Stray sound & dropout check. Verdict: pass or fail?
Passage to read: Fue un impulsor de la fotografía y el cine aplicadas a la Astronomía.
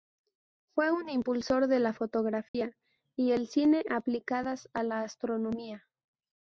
fail